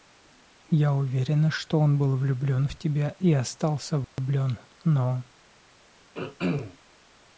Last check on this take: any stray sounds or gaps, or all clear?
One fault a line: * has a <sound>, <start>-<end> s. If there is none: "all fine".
* has a dropout, 4.0-4.2 s
* has a throat clearing, 6.1-6.8 s